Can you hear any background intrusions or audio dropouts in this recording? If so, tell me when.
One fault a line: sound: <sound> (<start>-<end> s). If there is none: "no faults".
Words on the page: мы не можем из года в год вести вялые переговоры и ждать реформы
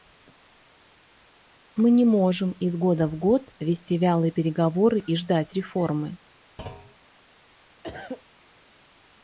sound: thud (6.6-7.0 s)
sound: cough (7.8-8.2 s)